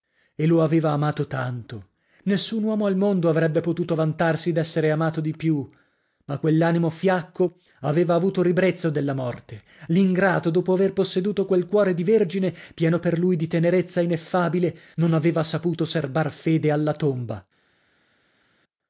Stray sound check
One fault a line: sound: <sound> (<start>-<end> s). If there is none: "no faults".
no faults